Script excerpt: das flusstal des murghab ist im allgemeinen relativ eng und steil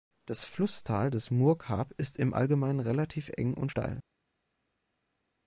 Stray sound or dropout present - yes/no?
no